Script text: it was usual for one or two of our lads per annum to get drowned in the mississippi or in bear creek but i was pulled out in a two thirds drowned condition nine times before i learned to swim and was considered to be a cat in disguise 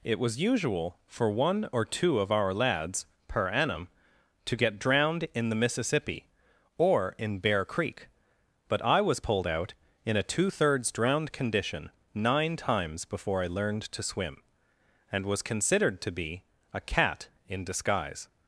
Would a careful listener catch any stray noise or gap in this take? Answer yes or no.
no